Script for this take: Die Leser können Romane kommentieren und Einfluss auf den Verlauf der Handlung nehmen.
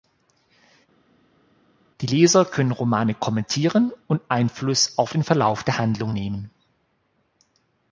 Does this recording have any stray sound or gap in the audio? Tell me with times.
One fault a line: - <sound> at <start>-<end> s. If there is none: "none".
none